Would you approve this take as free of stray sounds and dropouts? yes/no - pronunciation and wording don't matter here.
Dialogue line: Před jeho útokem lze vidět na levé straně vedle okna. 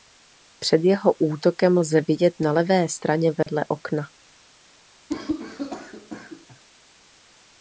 no